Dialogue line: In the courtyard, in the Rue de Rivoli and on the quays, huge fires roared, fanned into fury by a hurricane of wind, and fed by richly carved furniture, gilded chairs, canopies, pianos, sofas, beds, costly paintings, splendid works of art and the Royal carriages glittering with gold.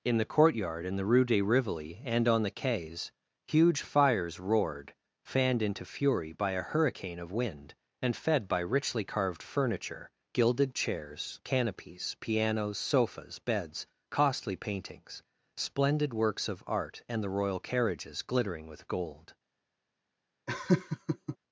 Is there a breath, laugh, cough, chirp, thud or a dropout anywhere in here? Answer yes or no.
yes